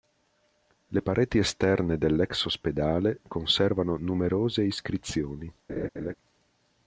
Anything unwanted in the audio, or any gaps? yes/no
yes